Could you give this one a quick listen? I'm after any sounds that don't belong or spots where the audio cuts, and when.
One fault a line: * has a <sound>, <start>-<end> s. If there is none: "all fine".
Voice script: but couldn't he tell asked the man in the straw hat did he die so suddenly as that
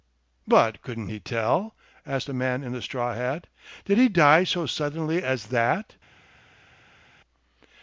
all fine